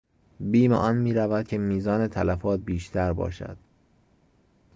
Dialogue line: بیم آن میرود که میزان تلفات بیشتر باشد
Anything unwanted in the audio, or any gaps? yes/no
no